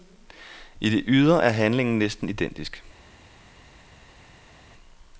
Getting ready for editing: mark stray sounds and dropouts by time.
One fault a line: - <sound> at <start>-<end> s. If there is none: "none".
none